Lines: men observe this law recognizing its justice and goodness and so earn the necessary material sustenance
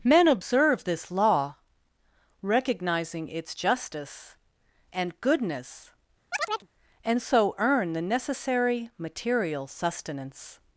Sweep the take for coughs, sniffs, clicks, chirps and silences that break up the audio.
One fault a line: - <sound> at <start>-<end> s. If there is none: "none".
- chirp at 6.3-6.7 s